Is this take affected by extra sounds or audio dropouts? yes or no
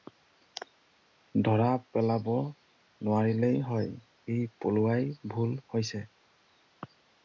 no